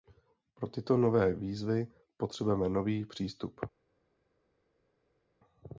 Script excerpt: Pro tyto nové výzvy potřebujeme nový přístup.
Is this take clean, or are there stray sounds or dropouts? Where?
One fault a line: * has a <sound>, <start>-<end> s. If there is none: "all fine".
all fine